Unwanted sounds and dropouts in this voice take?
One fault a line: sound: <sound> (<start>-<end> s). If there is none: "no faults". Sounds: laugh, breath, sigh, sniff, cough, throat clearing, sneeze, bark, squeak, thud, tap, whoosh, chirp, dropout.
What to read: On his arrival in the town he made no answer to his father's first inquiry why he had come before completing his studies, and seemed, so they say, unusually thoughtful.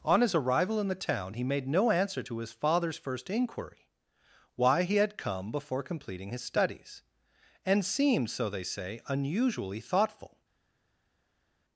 no faults